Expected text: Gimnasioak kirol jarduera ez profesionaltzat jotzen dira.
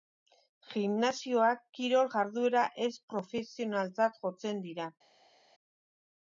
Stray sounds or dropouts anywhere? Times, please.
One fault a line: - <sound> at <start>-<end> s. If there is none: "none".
none